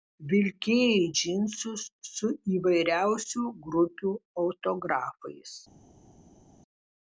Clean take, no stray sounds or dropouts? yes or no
yes